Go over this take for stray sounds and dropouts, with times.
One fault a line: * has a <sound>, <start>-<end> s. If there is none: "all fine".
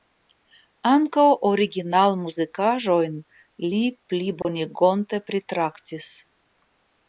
* has a dropout, 4.4-4.5 s